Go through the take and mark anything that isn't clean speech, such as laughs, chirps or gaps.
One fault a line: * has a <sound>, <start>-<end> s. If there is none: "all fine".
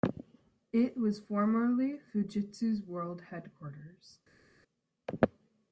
all fine